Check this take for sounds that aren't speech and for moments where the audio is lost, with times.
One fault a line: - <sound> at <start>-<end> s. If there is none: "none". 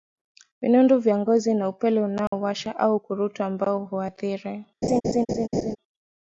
- dropout at 2.3-2.3 s
- laugh at 4.8-5.8 s